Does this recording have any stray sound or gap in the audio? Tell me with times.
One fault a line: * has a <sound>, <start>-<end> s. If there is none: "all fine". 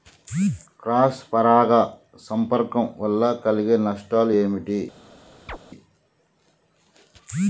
* has a chirp, 5.5-5.6 s